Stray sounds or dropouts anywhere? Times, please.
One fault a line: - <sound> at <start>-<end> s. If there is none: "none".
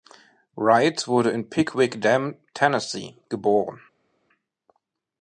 none